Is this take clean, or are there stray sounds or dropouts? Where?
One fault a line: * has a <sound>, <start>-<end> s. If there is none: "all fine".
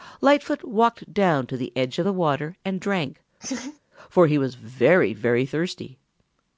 * has a laugh, 3.4-3.8 s